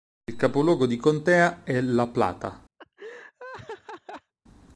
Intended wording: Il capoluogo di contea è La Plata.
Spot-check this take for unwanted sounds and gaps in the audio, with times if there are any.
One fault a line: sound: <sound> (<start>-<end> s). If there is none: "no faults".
sound: laugh (2.8-4.3 s)